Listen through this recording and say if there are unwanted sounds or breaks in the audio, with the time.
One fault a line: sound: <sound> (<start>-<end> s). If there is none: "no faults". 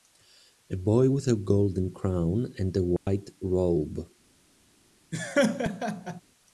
sound: dropout (3.0-3.1 s)
sound: laugh (5.1-6.2 s)